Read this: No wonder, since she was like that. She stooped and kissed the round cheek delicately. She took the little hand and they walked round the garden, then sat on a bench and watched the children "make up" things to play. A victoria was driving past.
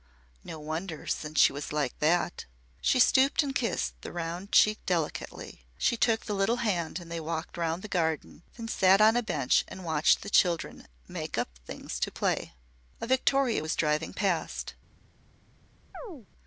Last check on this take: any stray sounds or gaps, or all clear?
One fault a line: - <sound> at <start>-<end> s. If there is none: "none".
- chirp at 15.9-16.3 s